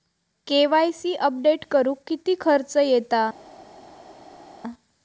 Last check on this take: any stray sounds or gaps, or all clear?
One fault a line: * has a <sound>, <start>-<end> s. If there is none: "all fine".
all fine